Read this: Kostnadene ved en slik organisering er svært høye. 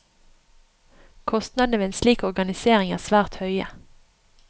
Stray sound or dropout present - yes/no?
no